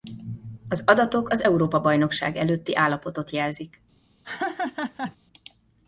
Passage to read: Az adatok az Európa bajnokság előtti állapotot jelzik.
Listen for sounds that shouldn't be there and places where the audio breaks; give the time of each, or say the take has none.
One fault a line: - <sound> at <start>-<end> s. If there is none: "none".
- laugh at 4.2-5.2 s